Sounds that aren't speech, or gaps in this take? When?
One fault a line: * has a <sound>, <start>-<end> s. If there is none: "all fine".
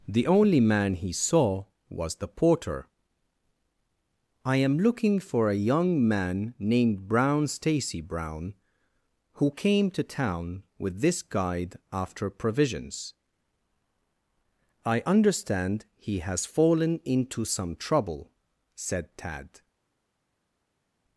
all fine